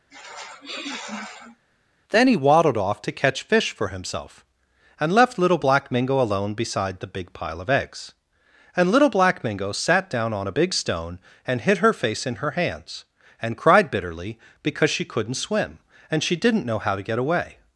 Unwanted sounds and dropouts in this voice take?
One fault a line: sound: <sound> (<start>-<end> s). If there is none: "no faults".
sound: sniff (0.1-1.6 s)